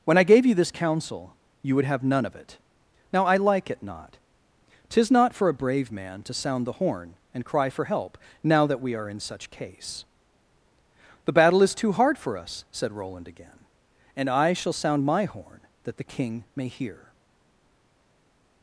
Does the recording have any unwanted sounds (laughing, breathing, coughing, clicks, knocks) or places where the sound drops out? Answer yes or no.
no